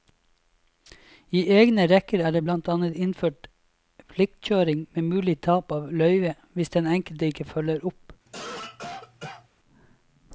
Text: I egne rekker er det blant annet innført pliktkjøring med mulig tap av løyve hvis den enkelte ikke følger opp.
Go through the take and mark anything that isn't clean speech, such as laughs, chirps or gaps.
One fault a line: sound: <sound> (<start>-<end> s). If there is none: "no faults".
sound: cough (8.3-9.5 s)